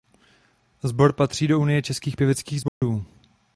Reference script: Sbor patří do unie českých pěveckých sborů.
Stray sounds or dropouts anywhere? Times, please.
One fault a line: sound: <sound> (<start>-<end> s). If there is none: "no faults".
sound: dropout (2.7-2.8 s)